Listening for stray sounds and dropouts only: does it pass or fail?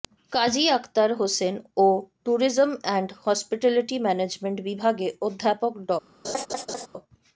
fail